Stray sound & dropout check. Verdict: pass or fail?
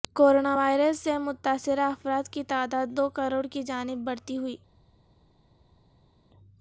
pass